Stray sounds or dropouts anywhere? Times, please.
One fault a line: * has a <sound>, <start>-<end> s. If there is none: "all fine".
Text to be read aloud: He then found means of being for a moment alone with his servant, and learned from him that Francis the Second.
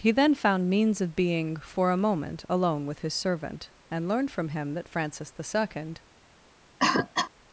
* has a cough, 6.8-7.3 s